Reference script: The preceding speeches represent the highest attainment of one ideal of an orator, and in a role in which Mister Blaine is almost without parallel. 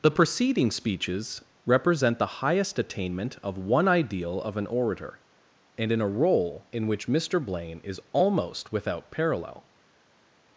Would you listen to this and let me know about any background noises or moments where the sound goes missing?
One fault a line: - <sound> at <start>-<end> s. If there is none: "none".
none